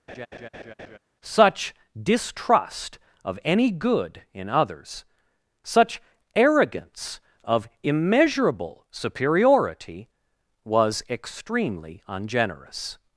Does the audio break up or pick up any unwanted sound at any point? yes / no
yes